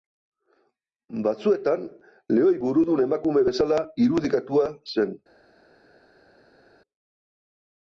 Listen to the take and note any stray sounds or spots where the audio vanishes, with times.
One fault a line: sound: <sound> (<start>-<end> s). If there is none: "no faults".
no faults